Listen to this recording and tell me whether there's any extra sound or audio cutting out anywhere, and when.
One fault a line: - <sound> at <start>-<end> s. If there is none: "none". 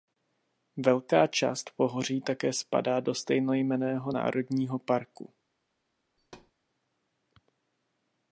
- thud at 6.2-6.5 s